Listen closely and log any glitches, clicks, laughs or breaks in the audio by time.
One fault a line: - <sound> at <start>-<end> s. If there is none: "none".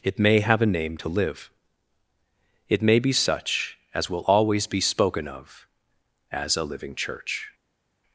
none